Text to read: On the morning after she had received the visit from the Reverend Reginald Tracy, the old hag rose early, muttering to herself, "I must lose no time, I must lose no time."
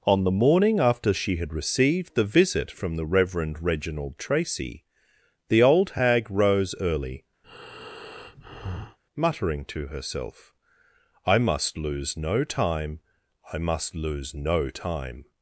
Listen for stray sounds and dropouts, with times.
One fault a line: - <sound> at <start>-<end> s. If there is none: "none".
- breath at 7.4-9.0 s